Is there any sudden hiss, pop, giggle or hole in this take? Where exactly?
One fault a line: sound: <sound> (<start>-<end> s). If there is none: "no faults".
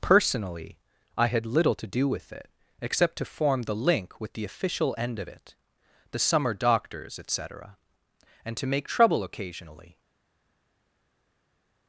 no faults